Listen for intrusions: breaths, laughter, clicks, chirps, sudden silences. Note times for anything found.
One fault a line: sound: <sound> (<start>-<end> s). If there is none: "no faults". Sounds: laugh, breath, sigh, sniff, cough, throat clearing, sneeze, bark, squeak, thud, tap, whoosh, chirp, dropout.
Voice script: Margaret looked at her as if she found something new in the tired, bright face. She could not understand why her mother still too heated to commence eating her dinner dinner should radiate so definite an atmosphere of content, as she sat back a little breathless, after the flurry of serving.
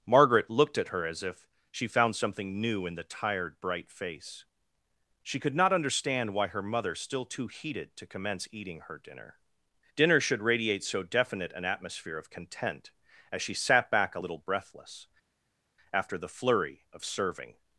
no faults